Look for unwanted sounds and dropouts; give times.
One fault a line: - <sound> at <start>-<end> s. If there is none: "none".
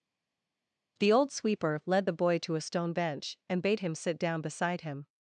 none